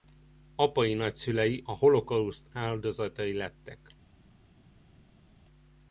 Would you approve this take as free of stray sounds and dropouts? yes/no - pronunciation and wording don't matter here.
yes